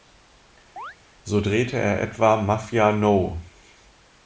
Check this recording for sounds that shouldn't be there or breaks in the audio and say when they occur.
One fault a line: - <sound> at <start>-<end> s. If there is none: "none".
- chirp at 0.8-1.0 s